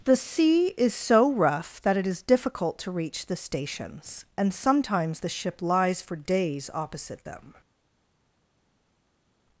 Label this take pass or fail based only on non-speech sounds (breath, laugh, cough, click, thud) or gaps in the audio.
pass